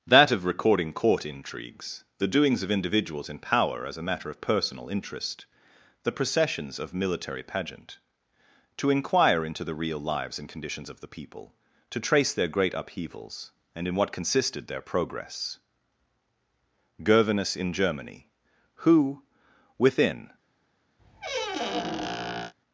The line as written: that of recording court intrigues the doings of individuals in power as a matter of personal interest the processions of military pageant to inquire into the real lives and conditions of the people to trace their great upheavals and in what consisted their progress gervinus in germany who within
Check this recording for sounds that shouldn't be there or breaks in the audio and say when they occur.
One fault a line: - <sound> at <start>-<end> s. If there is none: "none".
- squeak at 21.0-22.5 s